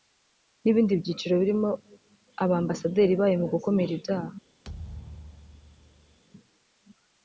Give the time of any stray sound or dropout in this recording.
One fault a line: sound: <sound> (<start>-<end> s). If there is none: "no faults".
sound: thud (4.6-6.2 s)